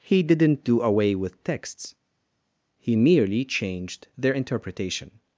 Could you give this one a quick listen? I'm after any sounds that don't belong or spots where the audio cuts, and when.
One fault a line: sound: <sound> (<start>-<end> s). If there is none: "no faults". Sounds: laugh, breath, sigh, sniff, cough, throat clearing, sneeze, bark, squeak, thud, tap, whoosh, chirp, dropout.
no faults